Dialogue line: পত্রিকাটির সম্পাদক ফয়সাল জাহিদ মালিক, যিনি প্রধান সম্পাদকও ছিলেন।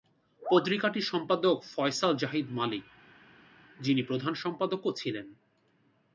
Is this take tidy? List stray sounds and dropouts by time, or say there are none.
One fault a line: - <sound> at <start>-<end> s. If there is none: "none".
none